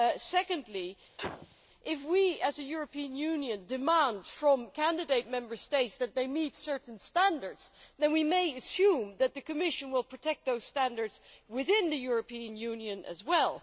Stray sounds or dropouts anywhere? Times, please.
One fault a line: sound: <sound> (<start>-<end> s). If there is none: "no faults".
sound: sneeze (1.2-1.6 s)